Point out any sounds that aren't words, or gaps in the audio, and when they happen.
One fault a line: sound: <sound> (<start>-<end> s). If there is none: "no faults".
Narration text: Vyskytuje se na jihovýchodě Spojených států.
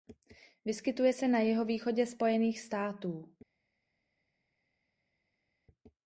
no faults